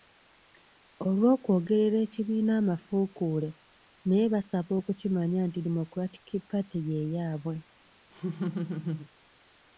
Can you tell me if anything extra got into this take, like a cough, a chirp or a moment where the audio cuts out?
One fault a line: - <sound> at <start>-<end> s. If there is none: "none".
- laugh at 8.1-9.1 s